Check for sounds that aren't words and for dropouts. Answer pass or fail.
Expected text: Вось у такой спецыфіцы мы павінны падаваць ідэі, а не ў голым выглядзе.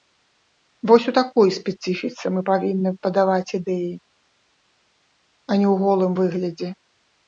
pass